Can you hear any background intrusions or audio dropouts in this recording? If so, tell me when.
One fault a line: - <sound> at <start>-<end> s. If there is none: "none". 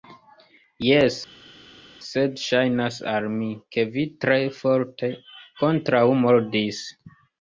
none